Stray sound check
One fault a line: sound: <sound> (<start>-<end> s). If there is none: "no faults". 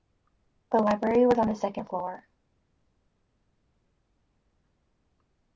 no faults